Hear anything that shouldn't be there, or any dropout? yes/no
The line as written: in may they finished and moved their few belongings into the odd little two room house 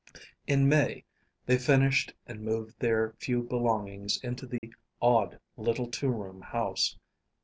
yes